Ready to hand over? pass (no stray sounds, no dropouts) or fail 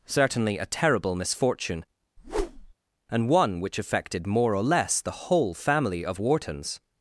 fail